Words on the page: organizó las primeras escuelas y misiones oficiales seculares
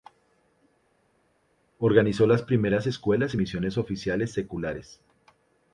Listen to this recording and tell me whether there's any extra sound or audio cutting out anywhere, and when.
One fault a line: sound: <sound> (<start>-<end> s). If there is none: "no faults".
no faults